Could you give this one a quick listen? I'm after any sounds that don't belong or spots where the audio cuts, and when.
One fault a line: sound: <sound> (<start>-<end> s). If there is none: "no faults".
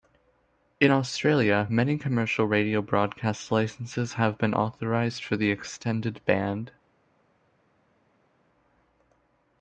no faults